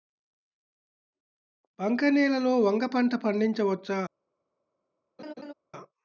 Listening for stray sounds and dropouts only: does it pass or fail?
fail